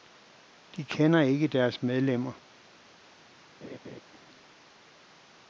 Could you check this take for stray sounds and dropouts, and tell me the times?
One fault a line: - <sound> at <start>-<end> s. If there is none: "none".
- laugh at 3.6-4.0 s